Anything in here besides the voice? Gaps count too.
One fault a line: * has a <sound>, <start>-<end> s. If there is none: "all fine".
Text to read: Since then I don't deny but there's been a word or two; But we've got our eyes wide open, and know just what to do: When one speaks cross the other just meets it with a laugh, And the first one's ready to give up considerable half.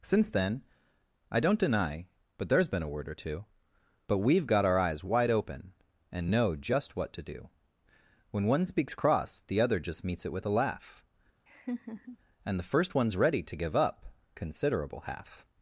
* has a laugh, 11.5-12.2 s